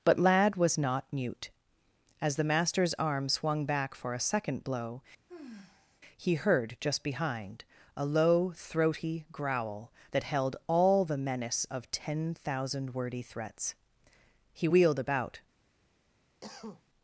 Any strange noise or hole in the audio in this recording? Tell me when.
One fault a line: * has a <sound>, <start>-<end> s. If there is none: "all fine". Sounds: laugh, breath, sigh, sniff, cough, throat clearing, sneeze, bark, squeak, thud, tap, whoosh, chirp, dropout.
* has a sigh, 5.3-6.0 s
* has a cough, 16.4-16.8 s